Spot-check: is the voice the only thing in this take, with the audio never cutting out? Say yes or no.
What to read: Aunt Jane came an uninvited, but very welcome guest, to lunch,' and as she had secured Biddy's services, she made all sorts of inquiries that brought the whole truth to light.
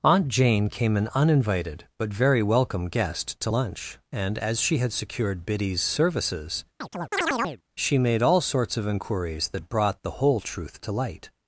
no